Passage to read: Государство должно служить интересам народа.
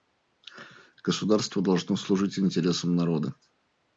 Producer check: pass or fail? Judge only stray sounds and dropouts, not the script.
pass